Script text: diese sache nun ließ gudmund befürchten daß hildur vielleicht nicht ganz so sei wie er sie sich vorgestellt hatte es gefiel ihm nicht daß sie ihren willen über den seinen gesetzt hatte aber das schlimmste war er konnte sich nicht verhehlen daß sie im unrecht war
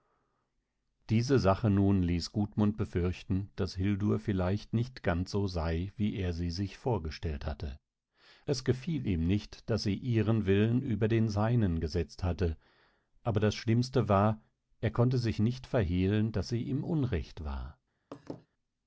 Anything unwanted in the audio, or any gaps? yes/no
yes